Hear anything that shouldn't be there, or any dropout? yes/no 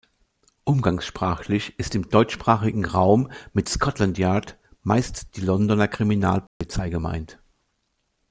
yes